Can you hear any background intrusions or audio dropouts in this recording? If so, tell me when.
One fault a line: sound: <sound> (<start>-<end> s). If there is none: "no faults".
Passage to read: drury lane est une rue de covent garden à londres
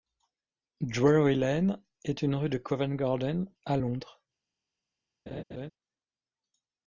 sound: laugh (5.3-5.7 s)